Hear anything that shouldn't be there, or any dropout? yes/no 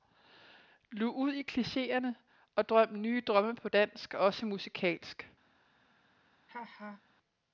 yes